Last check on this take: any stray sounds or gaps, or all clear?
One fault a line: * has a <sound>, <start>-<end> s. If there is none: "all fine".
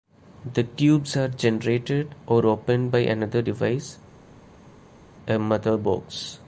all fine